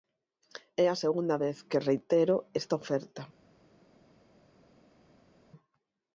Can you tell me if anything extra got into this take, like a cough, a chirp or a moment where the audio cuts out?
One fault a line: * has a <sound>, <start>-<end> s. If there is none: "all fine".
all fine